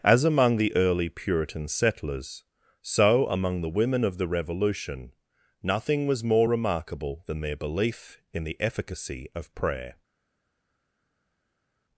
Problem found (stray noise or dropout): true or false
false